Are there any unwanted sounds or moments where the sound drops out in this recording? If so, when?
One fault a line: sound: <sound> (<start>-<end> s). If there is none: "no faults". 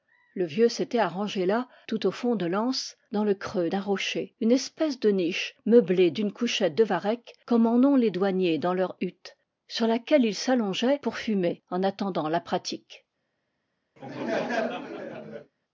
sound: laugh (14.0-15.5 s)